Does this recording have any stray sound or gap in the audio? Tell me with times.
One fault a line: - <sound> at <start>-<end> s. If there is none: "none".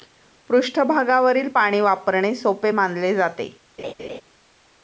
- laugh at 3.8-4.2 s